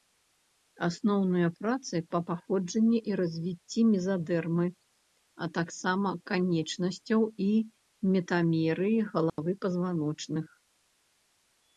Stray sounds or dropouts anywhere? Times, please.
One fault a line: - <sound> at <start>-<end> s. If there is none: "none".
- dropout at 9.3-9.4 s